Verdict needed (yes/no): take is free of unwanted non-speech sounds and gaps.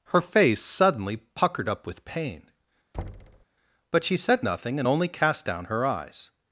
no